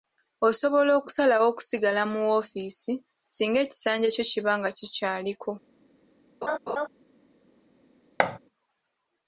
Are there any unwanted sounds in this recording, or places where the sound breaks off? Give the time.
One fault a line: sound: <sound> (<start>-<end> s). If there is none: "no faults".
sound: laugh (6.4-6.9 s)
sound: thud (8.2-8.4 s)